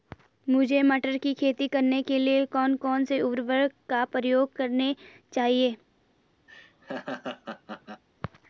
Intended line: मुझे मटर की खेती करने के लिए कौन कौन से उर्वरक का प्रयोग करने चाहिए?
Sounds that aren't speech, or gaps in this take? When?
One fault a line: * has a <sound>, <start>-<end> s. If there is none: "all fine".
* has a laugh, 6.5-8.0 s